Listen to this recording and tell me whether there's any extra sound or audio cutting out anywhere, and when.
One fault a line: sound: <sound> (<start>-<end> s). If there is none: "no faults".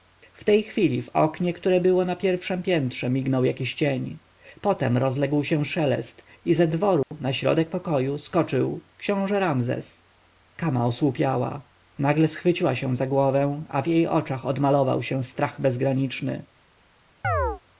sound: dropout (7.0-7.1 s)
sound: chirp (17.2-17.6 s)